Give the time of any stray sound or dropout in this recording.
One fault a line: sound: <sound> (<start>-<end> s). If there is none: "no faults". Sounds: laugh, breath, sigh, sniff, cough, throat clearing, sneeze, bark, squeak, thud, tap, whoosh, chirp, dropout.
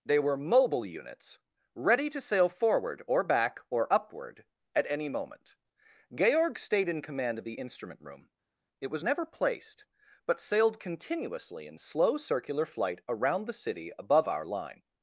no faults